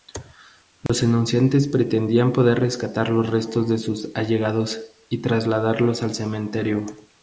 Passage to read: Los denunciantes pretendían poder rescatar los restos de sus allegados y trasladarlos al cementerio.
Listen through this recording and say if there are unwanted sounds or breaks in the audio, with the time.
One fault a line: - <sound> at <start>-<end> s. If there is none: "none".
- dropout at 0.9-0.9 s